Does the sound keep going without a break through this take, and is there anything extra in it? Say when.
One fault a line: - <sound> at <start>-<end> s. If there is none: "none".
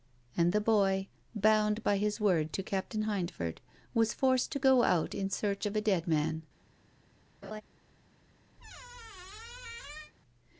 - laugh at 7.4-7.6 s
- squeak at 8.6-10.1 s